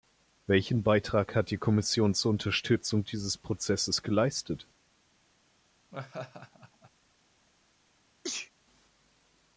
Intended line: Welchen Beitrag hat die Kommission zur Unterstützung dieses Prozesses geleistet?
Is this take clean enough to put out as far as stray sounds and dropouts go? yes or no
no